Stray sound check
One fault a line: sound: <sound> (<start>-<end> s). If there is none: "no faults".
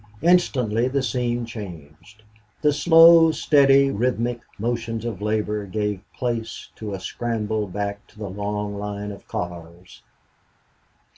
no faults